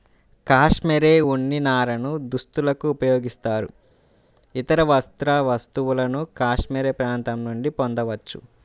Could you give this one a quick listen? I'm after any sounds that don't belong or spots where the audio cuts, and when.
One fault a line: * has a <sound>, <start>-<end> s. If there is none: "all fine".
all fine